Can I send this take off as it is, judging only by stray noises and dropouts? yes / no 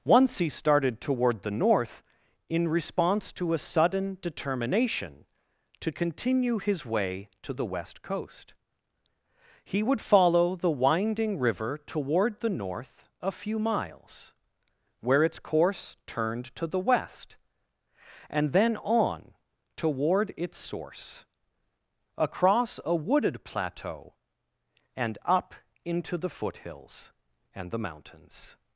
yes